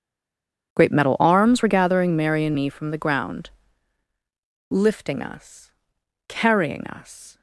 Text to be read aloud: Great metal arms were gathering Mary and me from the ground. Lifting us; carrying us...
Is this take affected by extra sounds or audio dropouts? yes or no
no